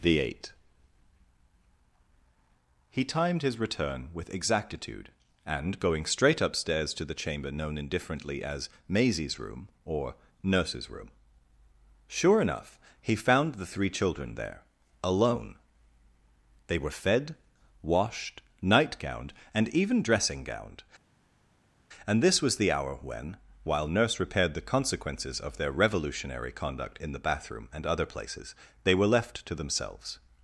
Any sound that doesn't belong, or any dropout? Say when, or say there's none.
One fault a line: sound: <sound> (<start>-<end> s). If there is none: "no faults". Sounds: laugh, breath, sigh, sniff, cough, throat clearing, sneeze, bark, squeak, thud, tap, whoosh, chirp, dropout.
no faults